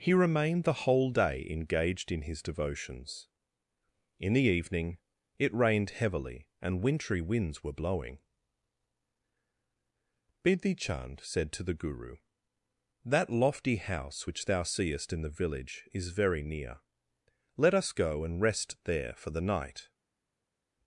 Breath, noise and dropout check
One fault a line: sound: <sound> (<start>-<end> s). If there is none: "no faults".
no faults